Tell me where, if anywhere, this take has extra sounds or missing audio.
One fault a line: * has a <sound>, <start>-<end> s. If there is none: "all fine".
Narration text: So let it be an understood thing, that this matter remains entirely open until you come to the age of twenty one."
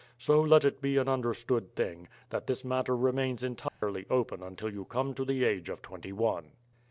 * has a dropout, 3.7-3.8 s